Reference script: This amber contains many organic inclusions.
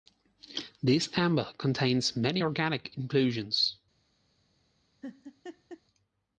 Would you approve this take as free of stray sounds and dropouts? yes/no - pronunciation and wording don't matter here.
no